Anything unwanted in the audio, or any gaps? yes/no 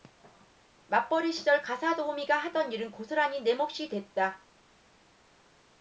no